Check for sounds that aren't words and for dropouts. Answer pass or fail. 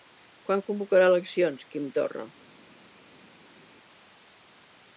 pass